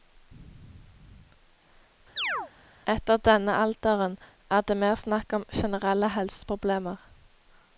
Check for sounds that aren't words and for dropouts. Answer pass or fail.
fail